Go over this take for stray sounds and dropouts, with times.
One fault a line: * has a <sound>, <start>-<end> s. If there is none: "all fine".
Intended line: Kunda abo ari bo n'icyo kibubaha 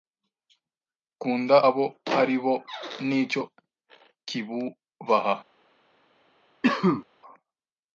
* has a cough, 6.6-7.0 s